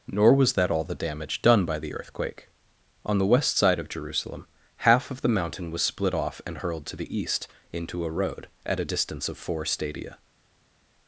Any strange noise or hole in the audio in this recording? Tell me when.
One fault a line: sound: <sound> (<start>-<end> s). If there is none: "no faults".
no faults